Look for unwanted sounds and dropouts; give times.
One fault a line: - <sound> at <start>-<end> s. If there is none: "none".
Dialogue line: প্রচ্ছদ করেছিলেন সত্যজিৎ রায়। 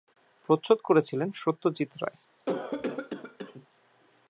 - cough at 2.4-3.7 s